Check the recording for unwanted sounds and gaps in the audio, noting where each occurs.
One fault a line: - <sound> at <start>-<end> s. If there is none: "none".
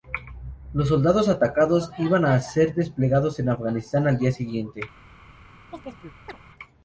- chirp at 5.7-6.4 s